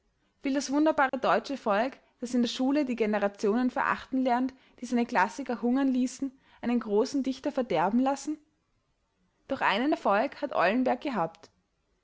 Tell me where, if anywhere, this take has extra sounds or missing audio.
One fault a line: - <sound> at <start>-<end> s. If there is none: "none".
- dropout at 1.1-1.1 s